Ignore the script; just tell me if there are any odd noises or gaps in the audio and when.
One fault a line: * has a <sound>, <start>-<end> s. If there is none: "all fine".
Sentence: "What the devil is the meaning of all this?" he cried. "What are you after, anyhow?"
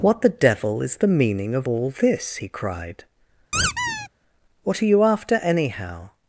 * has a squeak, 3.5-4.1 s